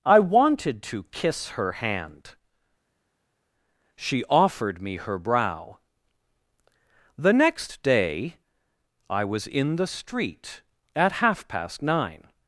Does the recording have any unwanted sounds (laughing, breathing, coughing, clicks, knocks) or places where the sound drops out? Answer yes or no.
no